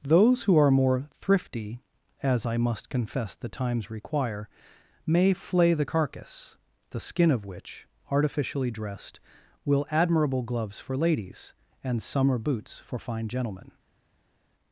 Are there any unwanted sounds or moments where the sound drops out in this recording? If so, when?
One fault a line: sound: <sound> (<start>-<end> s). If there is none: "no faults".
no faults